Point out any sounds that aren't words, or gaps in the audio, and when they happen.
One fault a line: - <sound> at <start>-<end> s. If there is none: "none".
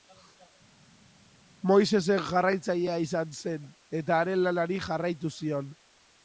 none